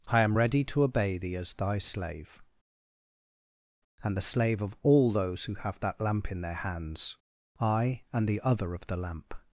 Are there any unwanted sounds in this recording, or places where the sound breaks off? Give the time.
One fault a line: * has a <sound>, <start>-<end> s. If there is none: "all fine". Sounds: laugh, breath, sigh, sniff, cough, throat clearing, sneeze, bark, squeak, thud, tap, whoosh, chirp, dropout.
all fine